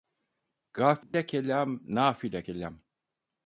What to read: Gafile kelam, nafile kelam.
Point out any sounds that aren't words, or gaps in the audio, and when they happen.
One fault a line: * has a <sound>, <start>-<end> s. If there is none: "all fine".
* has a dropout, 1.0-1.1 s